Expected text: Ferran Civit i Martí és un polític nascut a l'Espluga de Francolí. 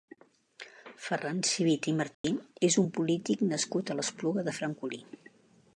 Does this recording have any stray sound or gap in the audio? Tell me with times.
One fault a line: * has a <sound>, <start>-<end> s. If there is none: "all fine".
* has a dropout, 2.1-2.2 s